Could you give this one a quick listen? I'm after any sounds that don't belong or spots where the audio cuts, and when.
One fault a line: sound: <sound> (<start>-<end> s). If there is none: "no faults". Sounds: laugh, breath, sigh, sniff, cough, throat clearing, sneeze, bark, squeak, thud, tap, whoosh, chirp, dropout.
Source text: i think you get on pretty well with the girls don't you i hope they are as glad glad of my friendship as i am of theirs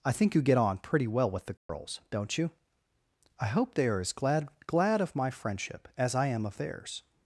sound: dropout (1.6-1.7 s)